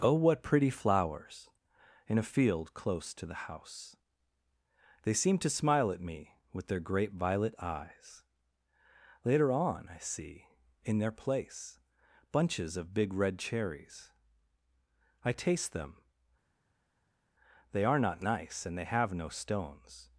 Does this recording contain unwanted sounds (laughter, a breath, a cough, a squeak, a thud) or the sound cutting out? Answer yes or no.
no